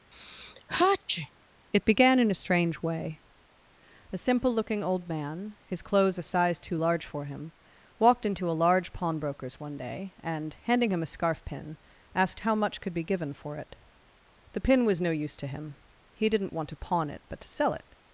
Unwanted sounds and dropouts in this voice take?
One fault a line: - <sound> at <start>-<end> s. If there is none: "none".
- sneeze at 0.1-1.3 s